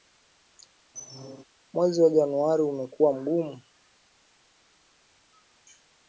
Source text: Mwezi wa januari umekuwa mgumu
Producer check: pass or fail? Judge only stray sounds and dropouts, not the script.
fail